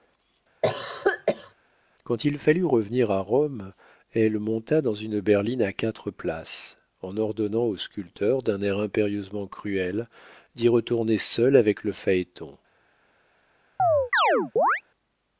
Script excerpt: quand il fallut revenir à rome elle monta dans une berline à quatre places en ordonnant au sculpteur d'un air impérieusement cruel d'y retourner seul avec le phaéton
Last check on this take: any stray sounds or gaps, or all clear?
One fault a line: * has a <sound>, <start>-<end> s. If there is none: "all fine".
* has a cough, 0.6-1.5 s
* has a chirp, 13.8-14.8 s